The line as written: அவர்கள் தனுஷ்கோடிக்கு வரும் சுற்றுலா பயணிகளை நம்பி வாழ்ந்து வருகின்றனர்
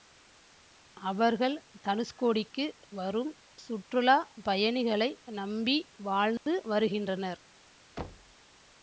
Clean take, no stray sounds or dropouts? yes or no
no